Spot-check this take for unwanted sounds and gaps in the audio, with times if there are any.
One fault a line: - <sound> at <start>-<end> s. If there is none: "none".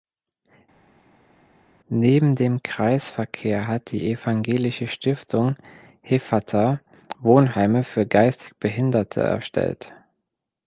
none